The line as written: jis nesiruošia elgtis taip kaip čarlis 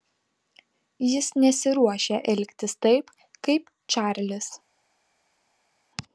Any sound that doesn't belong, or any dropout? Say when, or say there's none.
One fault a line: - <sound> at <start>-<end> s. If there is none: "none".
none